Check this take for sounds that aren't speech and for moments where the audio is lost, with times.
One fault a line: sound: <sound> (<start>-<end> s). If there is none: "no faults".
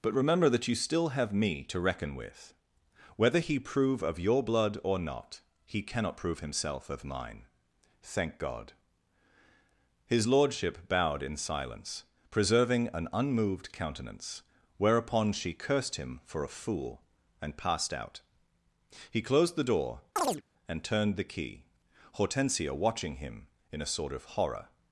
sound: chirp (20.2-20.4 s)